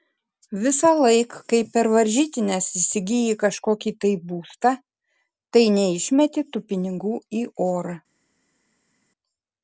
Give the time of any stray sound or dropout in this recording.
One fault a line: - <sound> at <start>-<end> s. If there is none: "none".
none